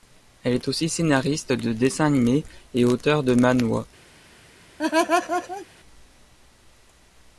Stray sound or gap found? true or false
true